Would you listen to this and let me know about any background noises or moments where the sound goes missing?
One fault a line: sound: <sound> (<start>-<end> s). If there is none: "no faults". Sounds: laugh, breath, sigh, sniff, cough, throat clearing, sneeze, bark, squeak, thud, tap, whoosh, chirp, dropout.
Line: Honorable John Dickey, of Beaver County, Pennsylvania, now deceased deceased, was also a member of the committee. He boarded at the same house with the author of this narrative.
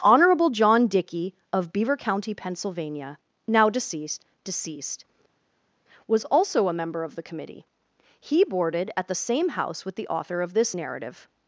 no faults